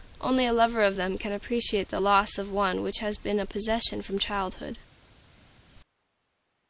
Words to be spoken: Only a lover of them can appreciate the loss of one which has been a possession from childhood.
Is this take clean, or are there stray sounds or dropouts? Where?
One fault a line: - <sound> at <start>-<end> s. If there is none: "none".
none